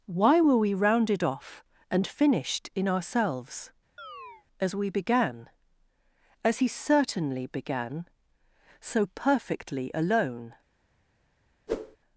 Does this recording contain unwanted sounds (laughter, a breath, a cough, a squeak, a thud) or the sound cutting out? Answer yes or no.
yes